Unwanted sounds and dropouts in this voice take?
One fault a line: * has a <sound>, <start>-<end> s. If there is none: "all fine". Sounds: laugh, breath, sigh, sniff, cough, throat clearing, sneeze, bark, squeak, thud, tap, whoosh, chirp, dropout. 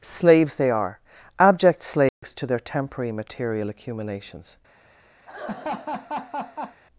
* has a dropout, 2.1-2.2 s
* has a laugh, 5.3-6.8 s